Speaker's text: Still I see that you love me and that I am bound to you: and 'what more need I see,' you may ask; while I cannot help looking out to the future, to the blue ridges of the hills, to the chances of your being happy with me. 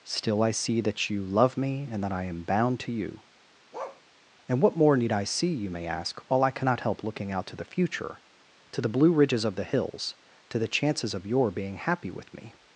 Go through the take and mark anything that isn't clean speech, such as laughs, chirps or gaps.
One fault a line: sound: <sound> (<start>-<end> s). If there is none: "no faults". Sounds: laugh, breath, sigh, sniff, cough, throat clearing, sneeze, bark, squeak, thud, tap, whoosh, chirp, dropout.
sound: bark (3.7-4.0 s)